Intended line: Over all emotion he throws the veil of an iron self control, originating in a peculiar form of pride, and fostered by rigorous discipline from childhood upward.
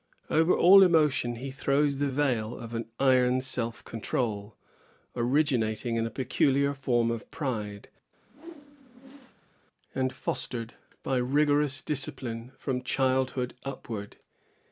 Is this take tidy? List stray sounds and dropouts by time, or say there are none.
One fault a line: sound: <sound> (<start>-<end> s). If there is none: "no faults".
sound: whoosh (8.2-9.6 s)